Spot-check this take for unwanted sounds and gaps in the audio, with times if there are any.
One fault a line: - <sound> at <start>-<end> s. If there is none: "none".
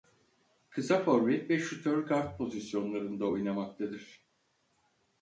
none